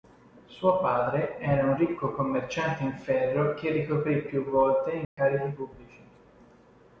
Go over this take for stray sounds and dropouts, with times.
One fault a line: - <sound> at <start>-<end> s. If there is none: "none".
- dropout at 5.0-5.2 s